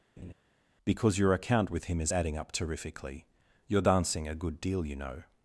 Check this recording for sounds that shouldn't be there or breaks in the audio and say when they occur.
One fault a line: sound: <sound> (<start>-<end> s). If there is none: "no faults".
sound: laugh (0.2-0.3 s)